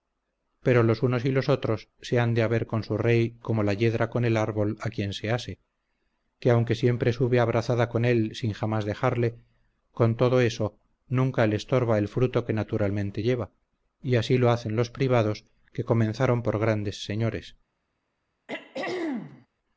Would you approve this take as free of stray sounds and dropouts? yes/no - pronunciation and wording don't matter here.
no